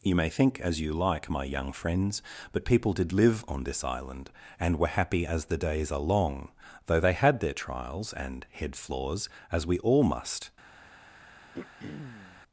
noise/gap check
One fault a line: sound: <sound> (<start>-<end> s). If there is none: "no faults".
sound: throat clearing (11.5-12.4 s)